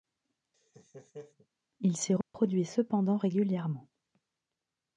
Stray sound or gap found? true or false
true